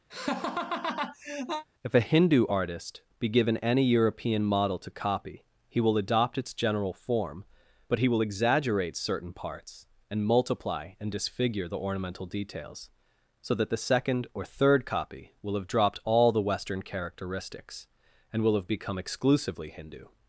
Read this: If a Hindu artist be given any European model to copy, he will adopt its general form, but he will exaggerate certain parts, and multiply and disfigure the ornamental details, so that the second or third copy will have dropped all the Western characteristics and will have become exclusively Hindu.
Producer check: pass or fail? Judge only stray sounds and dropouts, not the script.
fail